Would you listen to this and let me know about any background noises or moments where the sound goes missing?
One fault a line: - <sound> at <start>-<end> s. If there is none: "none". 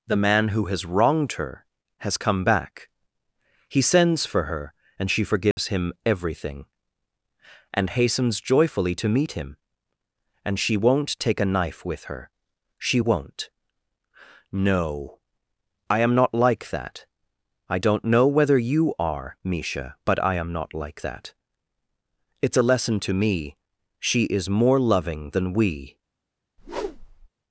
- dropout at 5.5-5.6 s
- whoosh at 26.6-27.3 s